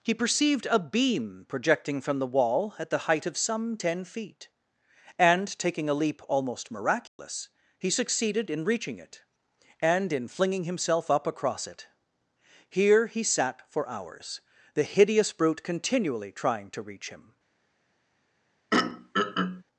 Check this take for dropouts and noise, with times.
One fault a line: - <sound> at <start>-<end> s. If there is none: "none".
- dropout at 7.1-7.2 s
- throat clearing at 18.7-19.6 s